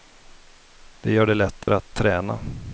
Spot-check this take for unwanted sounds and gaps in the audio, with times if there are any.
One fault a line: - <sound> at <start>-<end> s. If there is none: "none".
- dropout at 1.6-1.7 s